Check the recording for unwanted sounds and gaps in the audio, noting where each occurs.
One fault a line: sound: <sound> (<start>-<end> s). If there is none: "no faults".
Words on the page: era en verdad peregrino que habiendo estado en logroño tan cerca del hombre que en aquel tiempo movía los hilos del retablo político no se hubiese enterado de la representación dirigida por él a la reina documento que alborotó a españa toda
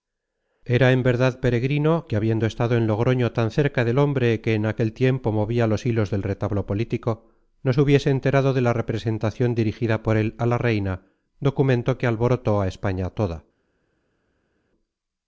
no faults